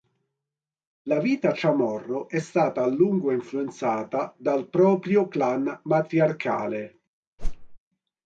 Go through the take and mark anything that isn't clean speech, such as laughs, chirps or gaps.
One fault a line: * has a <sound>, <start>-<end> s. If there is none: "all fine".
* has a whoosh, 7.4-7.8 s